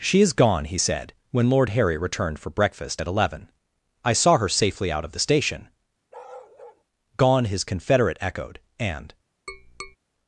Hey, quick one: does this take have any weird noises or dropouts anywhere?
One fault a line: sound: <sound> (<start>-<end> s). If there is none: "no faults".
sound: bark (6.1-6.8 s)
sound: tap (9.5-10.0 s)